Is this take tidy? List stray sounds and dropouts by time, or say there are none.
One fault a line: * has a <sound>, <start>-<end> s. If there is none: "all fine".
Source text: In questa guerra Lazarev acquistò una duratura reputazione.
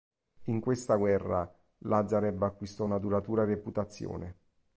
all fine